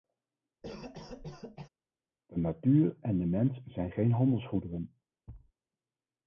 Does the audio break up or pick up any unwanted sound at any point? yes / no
yes